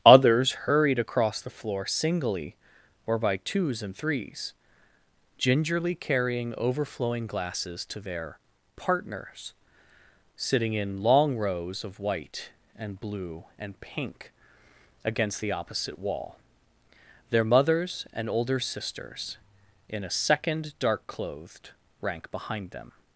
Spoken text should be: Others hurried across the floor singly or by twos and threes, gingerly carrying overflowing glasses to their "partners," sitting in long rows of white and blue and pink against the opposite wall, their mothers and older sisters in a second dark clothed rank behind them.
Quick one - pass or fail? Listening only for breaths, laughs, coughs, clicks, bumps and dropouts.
pass